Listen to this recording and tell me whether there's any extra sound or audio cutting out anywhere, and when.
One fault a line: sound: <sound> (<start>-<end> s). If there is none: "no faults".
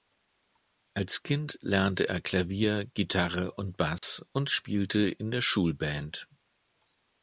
sound: dropout (4.0-4.0 s)